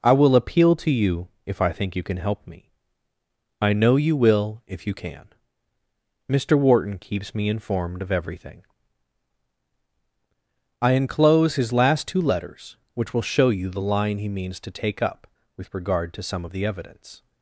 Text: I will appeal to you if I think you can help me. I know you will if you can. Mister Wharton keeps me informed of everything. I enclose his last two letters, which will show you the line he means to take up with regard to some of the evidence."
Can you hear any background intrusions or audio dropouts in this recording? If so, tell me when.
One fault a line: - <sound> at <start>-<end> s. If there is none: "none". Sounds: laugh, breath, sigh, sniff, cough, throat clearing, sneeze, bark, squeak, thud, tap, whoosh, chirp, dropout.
none